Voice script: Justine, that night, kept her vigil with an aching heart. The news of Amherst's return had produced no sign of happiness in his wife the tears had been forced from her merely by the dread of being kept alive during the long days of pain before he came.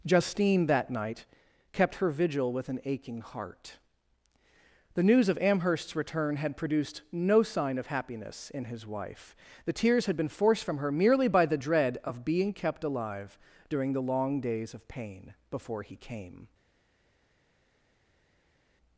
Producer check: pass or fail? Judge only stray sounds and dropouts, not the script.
pass